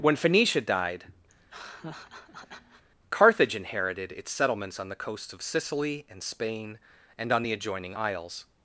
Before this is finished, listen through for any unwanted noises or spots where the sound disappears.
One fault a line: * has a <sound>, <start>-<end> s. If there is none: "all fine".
* has a laugh, 1.3-2.9 s